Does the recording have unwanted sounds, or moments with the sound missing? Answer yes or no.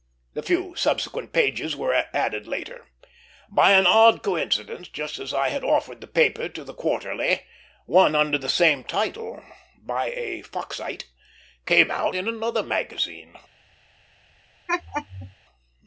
yes